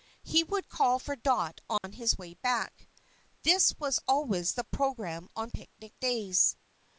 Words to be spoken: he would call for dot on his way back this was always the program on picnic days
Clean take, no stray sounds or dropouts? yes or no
no